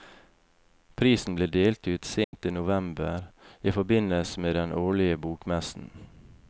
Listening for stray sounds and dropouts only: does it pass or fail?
fail